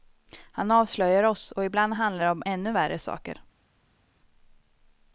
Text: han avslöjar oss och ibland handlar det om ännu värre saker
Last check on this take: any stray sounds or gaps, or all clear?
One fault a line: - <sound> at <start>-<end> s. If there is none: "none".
none